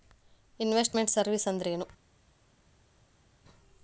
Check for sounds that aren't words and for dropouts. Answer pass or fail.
pass